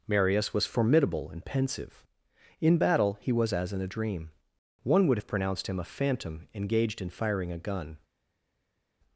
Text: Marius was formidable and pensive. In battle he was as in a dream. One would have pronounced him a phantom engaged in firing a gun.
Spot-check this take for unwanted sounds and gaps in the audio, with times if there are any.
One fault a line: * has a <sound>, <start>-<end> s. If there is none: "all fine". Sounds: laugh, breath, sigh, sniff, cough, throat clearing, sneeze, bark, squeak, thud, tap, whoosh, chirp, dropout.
all fine